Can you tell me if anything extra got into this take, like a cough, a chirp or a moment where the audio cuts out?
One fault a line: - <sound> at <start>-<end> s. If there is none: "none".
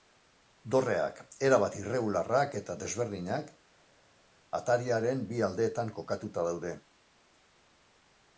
none